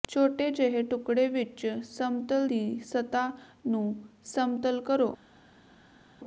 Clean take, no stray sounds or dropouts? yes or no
yes